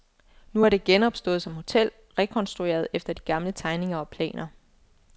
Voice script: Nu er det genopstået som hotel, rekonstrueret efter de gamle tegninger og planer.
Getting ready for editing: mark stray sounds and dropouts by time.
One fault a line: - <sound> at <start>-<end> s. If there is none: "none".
none